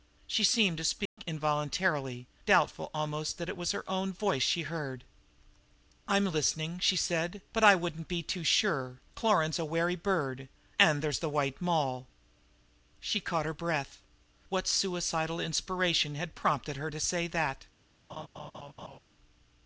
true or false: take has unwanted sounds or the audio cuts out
true